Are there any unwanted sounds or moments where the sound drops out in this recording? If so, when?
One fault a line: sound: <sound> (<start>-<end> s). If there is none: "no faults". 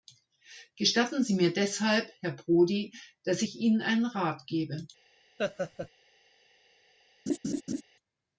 sound: laugh (5.4-5.9 s)
sound: laugh (7.3-7.8 s)